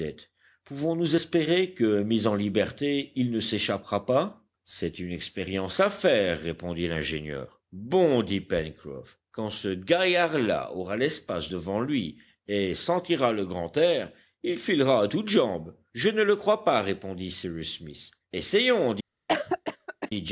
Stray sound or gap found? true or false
true